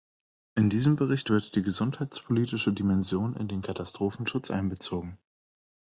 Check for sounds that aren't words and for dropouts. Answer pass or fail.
pass